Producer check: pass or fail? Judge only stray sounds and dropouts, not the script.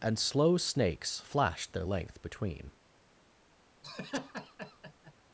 fail